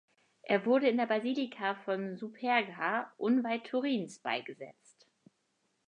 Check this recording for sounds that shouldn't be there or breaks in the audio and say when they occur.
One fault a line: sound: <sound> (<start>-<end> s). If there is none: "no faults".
no faults